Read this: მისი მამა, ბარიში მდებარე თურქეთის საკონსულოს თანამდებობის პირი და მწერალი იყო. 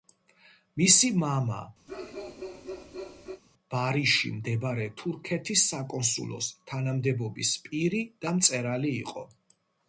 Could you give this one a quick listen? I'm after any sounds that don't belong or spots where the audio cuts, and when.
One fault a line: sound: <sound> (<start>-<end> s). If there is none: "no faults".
sound: bark (1.9-3.4 s)